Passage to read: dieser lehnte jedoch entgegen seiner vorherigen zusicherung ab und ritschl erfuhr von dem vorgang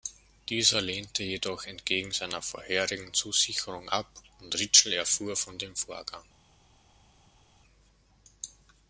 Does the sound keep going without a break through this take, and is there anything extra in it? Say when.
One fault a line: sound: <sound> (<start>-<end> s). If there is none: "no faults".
no faults